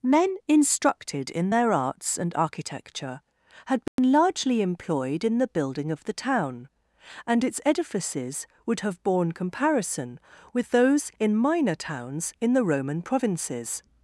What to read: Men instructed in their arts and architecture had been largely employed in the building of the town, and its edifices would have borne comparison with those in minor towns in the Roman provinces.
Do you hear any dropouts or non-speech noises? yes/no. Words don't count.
yes